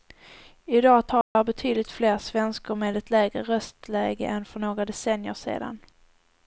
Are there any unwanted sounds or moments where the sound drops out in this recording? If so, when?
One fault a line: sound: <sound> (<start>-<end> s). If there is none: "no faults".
sound: dropout (1.2-1.4 s)